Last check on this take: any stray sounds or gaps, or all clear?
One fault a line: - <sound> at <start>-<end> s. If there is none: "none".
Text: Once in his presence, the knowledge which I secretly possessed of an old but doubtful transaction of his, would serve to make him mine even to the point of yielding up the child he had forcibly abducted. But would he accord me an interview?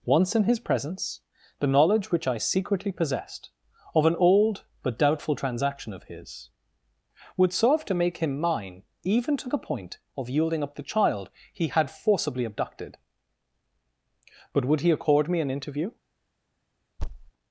- thud at 17.0-17.3 s